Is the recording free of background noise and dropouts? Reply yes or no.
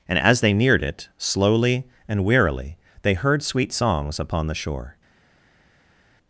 yes